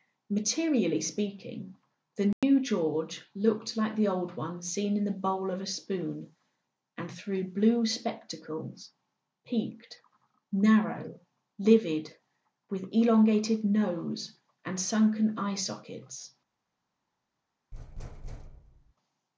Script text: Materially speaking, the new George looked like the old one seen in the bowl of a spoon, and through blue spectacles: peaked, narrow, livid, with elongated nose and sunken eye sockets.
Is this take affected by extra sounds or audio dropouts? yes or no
yes